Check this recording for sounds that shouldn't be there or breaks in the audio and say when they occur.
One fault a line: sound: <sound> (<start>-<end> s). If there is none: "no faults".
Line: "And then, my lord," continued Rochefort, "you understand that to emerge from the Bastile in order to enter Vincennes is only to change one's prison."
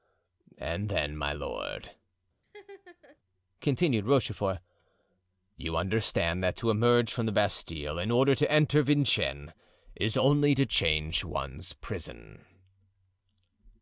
sound: laugh (2.4-3.2 s)